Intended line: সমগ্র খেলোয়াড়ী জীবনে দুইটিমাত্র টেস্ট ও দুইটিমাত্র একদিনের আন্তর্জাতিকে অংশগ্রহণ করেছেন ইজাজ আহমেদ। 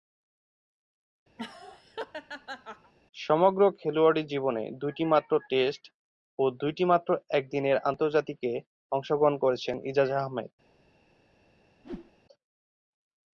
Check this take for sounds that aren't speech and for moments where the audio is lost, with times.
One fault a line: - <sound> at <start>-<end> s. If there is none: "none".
- laugh at 1.4-2.9 s
- whoosh at 11.8-12.1 s